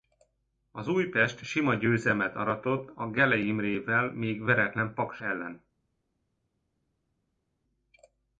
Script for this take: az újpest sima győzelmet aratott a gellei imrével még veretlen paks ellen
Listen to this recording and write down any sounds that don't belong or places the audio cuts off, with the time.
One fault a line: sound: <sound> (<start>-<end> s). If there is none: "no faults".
no faults